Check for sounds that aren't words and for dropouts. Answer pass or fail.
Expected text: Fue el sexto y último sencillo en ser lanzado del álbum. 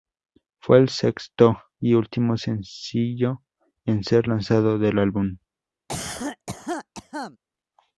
fail